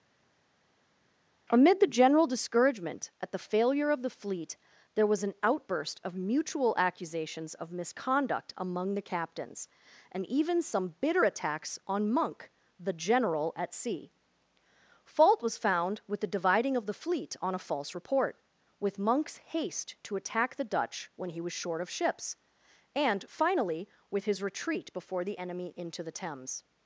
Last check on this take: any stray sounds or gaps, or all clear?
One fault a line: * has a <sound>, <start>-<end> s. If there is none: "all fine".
all fine